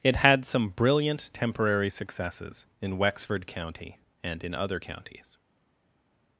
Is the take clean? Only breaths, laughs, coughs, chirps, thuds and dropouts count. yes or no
yes